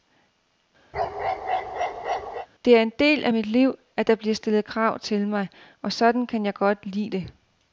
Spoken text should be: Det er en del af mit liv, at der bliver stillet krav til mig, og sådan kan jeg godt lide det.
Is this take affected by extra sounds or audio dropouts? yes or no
yes